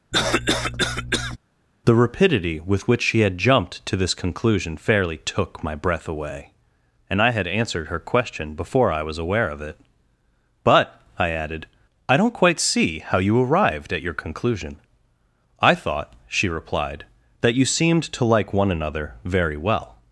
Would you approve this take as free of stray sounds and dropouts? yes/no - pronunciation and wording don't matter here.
no